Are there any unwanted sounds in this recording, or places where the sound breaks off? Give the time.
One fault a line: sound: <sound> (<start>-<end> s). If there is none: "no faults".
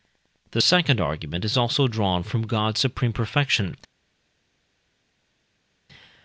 no faults